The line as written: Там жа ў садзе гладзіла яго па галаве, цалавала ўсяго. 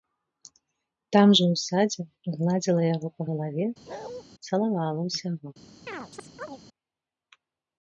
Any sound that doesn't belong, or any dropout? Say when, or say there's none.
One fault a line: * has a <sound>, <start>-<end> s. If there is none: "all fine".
* has a bark, 3.9-4.2 s
* has a chirp, 5.9-6.6 s